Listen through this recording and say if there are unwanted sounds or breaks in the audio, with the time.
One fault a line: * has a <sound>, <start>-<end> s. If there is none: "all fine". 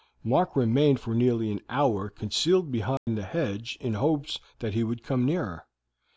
* has a dropout, 3.0-3.1 s